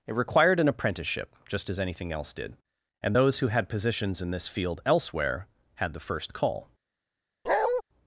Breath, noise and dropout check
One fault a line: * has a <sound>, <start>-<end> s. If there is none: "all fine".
* has a bark, 7.5-7.8 s